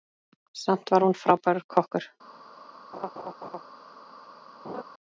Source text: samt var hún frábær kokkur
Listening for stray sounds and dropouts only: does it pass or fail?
fail